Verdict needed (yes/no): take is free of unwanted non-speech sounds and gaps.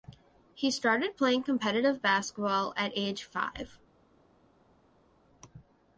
yes